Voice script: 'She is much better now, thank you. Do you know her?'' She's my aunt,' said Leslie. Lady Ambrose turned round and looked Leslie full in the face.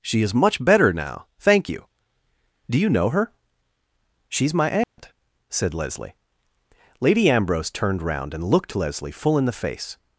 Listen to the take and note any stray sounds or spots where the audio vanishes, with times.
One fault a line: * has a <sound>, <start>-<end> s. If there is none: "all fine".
* has a dropout, 4.8-5.0 s